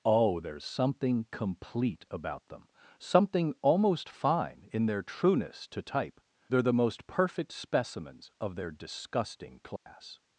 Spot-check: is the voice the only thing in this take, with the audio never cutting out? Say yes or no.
no